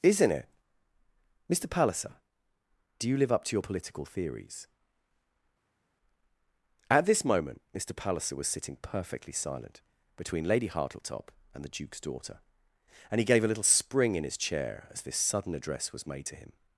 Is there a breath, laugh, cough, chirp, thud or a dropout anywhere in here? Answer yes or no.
no